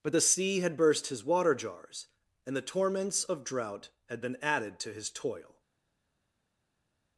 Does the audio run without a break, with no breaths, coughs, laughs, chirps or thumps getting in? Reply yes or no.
yes